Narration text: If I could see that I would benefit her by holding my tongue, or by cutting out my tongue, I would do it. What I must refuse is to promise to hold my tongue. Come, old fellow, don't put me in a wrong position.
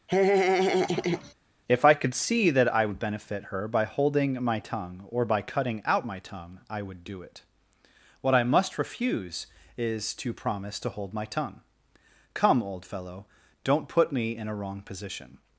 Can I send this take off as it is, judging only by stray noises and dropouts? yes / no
no